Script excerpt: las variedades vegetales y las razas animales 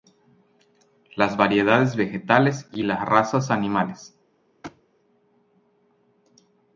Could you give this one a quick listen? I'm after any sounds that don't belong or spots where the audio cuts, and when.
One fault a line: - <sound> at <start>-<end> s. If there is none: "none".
- thud at 4.6-4.8 s